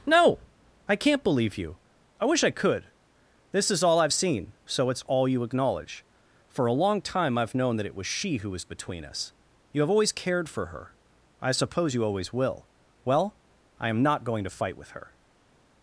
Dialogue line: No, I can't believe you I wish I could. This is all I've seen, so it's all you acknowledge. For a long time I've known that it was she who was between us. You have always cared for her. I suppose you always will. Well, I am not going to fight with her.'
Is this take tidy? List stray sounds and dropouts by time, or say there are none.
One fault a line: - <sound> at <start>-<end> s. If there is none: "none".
none